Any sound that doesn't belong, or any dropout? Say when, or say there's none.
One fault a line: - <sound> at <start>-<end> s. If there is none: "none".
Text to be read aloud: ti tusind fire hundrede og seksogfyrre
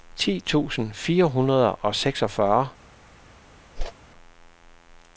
- whoosh at 3.8-3.9 s